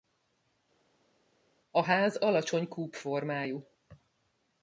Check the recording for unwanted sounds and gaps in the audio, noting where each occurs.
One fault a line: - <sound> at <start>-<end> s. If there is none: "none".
none